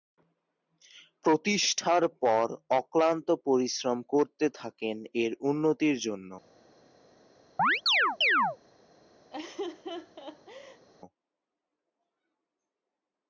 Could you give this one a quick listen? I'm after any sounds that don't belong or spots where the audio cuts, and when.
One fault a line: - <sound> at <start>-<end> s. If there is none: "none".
- chirp at 7.6-8.6 s
- laugh at 9.3-10.9 s